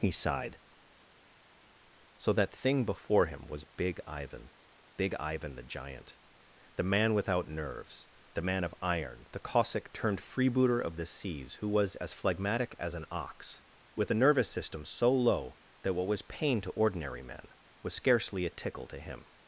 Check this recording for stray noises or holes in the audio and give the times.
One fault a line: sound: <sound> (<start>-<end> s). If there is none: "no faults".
no faults